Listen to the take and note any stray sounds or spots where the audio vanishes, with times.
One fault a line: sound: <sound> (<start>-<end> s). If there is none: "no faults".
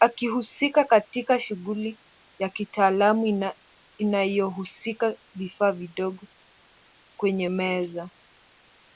no faults